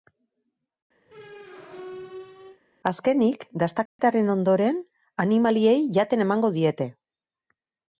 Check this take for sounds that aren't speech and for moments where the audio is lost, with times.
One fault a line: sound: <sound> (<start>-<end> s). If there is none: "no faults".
sound: squeak (1.1-2.6 s)
sound: dropout (3.9-4.0 s)